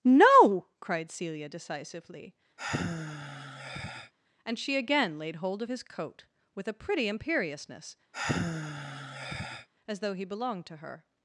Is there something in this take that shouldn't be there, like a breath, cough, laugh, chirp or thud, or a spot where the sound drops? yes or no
yes